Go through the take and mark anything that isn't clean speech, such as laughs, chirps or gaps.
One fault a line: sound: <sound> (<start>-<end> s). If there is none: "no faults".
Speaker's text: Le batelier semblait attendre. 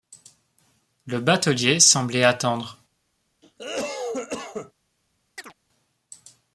sound: cough (3.4-4.7 s)
sound: chirp (5.4-5.5 s)